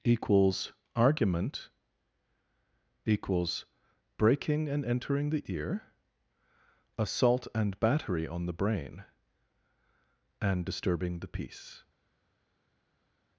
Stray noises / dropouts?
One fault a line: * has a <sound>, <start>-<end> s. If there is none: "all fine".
all fine